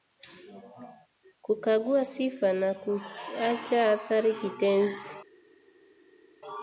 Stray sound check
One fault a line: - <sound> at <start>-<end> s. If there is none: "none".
none